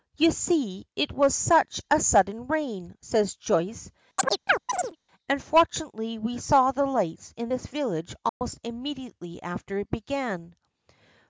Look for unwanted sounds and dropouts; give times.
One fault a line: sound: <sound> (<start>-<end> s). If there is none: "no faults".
sound: chirp (4.2-5.0 s)
sound: dropout (8.3-8.4 s)